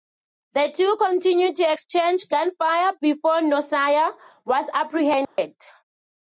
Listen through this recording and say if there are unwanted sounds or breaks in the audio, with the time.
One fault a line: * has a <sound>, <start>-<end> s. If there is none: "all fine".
* has a dropout, 5.2-5.4 s